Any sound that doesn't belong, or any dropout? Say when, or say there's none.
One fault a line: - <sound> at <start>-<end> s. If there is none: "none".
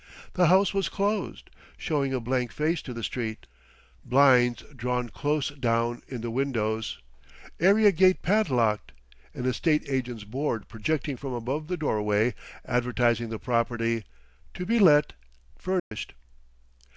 - dropout at 15.8-15.9 s